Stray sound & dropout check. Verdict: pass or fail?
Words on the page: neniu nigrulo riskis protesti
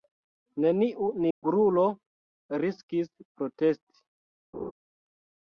fail